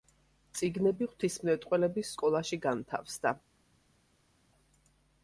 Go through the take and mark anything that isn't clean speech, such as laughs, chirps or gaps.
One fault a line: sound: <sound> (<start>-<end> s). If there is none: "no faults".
no faults